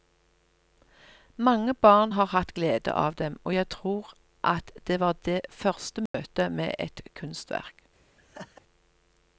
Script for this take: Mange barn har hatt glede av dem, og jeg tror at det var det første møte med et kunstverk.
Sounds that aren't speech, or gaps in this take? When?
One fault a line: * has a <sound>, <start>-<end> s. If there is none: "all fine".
* has a dropout, 6.1-6.1 s
* has a laugh, 8.2-8.6 s